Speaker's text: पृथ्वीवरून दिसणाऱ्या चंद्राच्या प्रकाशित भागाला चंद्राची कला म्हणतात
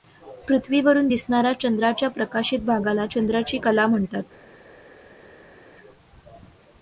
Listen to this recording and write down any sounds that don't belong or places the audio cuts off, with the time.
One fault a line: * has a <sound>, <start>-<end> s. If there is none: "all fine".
all fine